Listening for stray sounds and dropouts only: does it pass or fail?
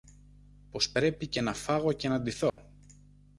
fail